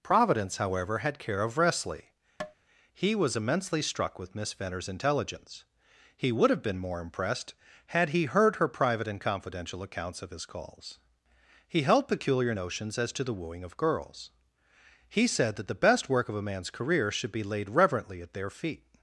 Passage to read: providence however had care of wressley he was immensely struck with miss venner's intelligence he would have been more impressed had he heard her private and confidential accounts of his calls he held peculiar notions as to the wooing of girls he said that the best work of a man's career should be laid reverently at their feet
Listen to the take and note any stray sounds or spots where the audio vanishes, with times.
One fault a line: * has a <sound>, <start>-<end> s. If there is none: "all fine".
* has a tap, 2.4-2.5 s